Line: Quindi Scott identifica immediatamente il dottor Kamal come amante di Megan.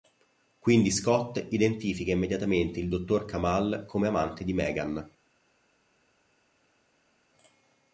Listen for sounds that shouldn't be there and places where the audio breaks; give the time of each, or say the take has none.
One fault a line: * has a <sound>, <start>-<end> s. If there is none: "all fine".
all fine